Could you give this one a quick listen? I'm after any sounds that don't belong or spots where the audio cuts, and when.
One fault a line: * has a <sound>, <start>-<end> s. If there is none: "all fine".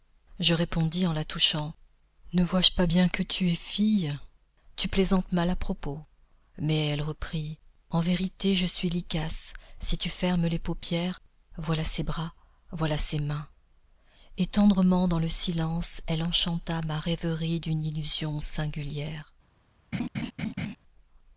* has a laugh, 19.9-20.8 s